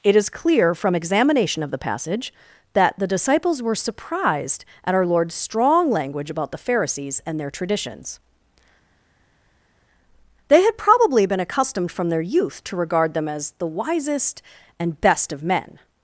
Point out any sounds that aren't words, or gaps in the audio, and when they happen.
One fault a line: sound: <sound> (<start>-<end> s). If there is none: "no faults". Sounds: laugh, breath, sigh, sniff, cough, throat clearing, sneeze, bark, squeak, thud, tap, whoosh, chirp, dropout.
no faults